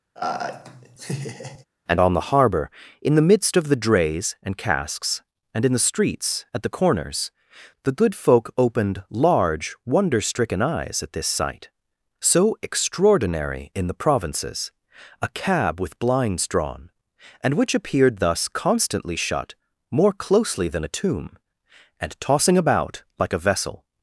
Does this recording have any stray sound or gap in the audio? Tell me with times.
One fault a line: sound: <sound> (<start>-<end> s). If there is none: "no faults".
sound: laugh (0.1-1.6 s)